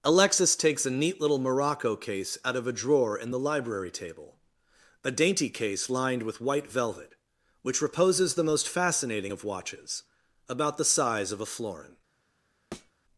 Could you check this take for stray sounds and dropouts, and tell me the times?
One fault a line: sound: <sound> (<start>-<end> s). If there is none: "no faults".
sound: thud (12.7-12.9 s)